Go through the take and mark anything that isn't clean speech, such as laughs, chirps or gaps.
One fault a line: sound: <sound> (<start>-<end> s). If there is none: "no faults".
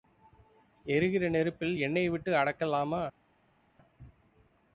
no faults